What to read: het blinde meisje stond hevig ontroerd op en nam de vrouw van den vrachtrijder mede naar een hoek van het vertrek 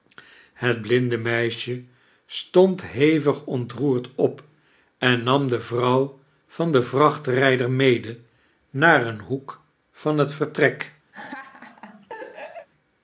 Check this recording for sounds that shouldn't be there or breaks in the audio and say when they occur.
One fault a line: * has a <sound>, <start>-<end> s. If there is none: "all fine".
* has a laugh, 11.1-12.7 s